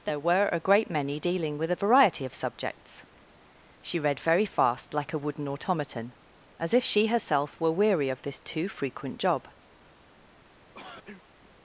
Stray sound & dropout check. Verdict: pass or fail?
fail